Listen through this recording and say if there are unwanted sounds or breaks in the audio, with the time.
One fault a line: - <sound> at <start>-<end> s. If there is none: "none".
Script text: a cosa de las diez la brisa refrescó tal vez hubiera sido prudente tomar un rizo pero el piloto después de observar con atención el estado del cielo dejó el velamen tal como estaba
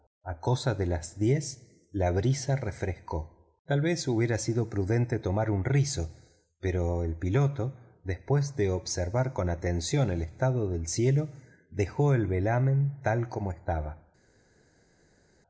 none